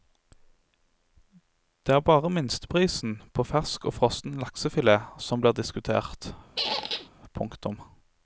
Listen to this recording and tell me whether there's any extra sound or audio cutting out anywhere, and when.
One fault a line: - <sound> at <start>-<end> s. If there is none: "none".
- squeak at 6.6-7.1 s